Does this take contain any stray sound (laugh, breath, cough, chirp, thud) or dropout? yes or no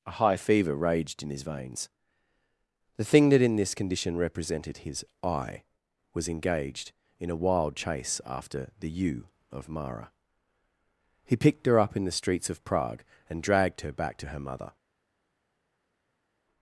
no